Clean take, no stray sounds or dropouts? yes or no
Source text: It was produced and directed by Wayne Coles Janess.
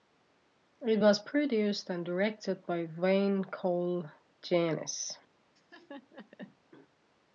no